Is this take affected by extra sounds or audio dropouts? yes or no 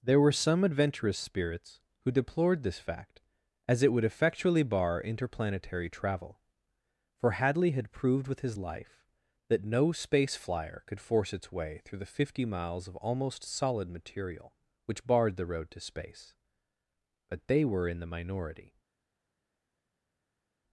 no